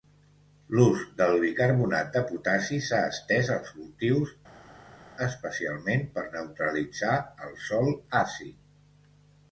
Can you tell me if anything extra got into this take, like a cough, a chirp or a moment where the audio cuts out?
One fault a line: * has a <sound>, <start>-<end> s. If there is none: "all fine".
all fine